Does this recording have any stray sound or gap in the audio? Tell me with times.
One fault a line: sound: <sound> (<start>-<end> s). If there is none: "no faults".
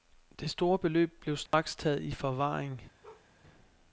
sound: dropout (1.5-1.5 s)
sound: bark (3.0-3.3 s)